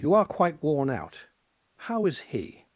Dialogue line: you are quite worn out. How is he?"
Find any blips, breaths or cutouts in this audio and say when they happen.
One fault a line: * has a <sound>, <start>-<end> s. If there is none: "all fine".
all fine